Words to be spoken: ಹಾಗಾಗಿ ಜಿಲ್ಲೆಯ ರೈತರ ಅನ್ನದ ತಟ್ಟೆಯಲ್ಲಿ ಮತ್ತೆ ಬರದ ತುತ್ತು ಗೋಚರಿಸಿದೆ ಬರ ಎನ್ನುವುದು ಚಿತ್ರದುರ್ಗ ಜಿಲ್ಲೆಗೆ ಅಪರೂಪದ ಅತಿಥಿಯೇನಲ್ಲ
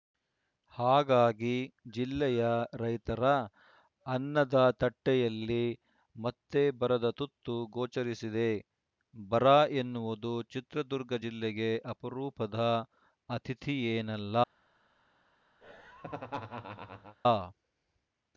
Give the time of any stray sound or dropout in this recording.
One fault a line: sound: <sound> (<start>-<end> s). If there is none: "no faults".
sound: laugh (15.6-17.2 s)